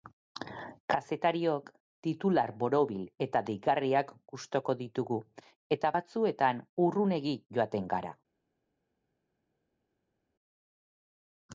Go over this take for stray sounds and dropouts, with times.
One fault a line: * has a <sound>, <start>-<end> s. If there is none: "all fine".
all fine